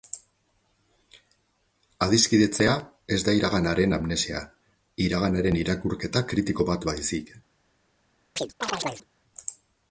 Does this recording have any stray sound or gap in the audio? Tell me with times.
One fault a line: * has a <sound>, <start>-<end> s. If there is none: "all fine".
* has a chirp, 8.4-9.1 s